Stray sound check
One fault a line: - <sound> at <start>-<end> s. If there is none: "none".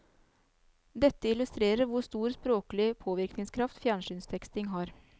none